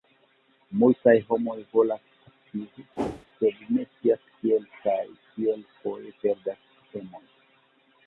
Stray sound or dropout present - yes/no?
yes